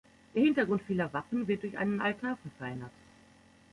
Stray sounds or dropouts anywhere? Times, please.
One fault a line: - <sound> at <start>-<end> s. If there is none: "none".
none